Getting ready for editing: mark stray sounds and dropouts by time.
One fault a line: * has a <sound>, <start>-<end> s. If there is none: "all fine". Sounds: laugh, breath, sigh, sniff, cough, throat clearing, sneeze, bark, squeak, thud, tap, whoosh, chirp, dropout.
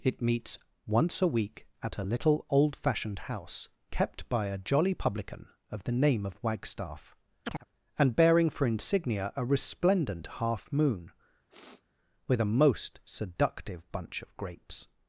* has a chirp, 7.4-7.7 s
* has a sniff, 11.5-11.8 s